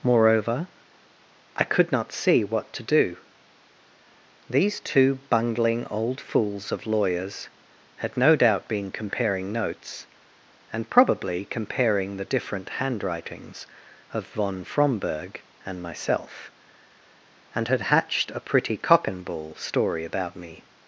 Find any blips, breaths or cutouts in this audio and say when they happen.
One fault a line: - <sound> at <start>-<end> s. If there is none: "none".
none